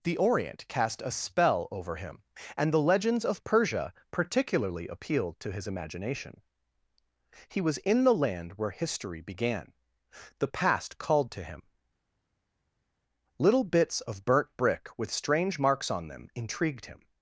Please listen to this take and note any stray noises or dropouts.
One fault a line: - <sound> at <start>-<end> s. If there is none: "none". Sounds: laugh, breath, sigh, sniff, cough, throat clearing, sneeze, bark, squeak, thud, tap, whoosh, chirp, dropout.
none